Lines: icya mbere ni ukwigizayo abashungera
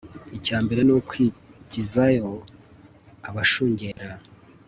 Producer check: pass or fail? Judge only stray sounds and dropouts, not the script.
fail